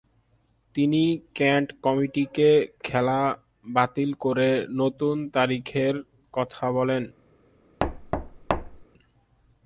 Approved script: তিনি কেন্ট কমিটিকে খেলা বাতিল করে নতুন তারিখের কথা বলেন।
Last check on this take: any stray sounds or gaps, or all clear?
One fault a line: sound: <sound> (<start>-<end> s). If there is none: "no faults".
sound: thud (7.8-8.8 s)